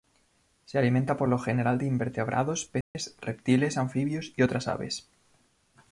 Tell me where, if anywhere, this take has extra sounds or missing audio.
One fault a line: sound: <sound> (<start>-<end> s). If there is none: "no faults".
sound: dropout (2.8-2.9 s)